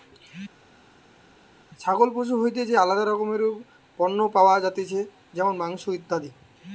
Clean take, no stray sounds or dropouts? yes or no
yes